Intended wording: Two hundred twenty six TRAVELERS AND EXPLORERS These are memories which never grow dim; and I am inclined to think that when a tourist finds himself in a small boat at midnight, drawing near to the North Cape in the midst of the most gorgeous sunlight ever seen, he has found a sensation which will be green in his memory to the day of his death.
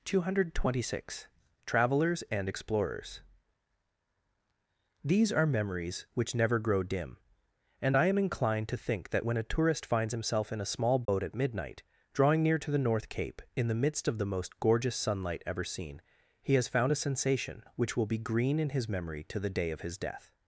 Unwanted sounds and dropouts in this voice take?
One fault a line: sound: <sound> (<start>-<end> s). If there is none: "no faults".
sound: dropout (11.0-11.1 s)